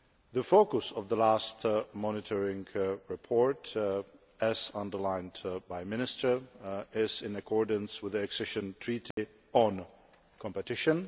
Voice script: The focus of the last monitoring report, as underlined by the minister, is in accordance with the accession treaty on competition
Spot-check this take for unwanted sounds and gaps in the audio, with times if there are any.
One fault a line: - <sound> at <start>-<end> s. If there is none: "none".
- dropout at 9.1-9.2 s